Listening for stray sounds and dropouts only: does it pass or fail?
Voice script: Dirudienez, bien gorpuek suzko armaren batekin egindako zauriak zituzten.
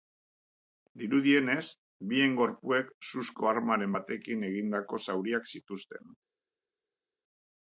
pass